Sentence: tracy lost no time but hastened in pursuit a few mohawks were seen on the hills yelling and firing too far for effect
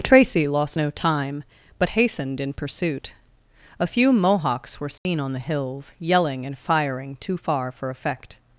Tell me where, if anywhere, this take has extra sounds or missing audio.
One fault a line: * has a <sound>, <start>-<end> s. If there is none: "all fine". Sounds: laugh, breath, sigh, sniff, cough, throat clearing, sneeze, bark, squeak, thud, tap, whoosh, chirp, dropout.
* has a dropout, 5.0-5.1 s